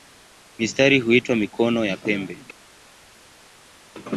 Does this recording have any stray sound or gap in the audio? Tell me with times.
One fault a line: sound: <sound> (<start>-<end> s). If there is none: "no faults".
no faults